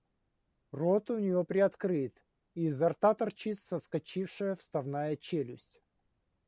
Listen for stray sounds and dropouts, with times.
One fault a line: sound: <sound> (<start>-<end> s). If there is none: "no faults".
no faults